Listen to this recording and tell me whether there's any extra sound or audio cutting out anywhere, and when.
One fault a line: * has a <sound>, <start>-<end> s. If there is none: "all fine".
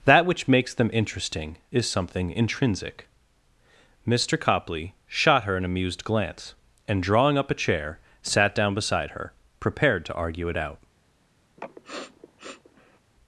* has a sniff, 11.6-13.0 s